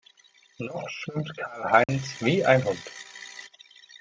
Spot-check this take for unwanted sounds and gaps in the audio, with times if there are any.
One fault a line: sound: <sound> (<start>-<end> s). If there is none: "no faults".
sound: dropout (1.8-1.9 s)